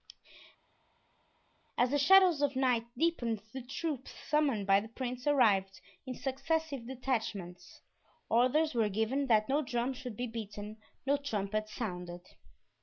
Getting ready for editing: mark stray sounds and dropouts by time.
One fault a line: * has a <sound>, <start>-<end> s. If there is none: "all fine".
all fine